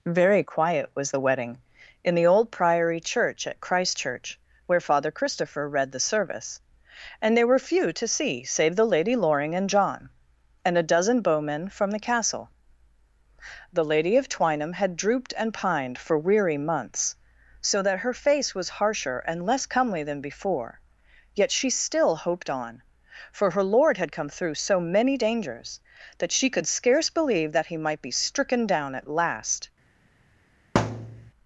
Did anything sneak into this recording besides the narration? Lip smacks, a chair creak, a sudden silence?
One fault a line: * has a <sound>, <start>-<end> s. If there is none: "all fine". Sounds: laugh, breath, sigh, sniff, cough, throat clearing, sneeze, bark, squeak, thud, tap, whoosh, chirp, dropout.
* has a thud, 30.7-31.3 s